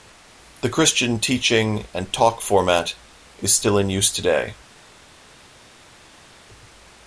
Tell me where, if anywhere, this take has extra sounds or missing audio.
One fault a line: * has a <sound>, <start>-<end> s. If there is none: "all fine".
all fine